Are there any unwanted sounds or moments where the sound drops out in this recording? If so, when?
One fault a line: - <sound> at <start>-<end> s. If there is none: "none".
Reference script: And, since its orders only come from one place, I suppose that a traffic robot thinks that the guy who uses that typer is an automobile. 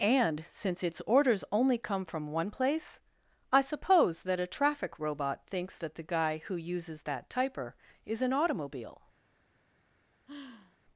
- sigh at 10.3-10.8 s